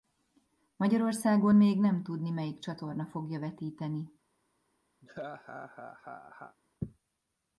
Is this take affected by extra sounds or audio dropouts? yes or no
yes